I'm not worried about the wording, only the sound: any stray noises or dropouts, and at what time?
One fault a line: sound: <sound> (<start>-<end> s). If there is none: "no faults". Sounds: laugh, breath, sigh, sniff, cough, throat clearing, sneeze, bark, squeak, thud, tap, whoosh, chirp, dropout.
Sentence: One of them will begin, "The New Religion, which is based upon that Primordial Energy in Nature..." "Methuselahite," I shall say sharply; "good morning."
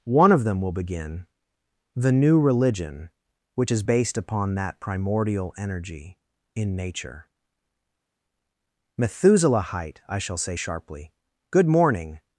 no faults